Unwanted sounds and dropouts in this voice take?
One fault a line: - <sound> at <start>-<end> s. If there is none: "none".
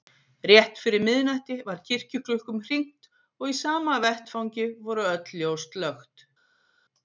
none